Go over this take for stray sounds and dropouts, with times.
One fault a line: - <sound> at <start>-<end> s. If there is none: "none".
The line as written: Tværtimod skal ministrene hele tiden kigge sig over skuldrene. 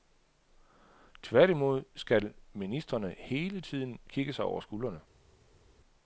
none